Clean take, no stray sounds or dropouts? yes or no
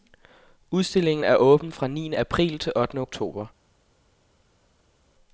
yes